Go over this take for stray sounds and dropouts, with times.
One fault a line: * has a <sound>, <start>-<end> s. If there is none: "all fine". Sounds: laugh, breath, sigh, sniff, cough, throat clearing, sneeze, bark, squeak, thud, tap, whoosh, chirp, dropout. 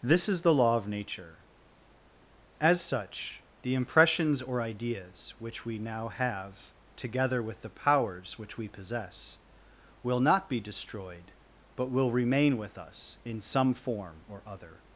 all fine